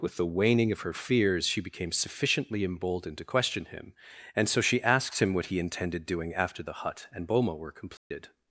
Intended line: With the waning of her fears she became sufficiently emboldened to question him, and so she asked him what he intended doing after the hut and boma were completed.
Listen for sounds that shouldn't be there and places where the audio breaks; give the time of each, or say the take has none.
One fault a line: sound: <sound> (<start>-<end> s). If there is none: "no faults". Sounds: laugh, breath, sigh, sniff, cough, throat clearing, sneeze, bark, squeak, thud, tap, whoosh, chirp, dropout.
sound: dropout (8.0-8.1 s)